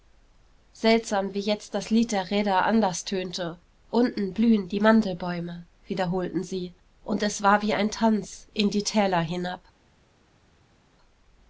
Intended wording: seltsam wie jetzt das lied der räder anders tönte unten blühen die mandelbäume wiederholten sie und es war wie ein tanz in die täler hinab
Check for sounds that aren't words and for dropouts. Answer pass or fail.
pass